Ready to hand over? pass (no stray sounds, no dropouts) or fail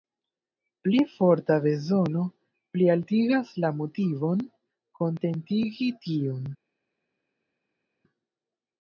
pass